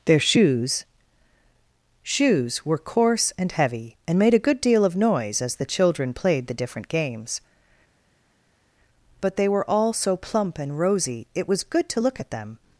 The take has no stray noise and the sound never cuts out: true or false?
true